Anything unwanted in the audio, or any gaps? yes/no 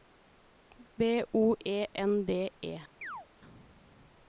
yes